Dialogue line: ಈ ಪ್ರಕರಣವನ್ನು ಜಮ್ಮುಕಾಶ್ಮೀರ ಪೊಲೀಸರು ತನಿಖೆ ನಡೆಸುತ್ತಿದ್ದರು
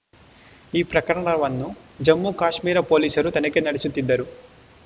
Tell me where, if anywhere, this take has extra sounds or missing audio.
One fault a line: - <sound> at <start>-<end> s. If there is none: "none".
none